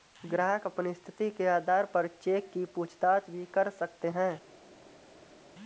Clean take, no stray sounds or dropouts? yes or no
yes